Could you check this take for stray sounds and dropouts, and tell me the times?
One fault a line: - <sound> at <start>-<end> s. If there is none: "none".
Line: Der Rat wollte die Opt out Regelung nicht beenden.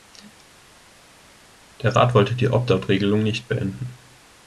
none